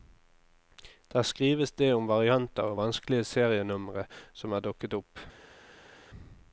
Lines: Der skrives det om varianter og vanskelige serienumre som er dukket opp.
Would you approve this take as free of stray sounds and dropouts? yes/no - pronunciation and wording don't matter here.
yes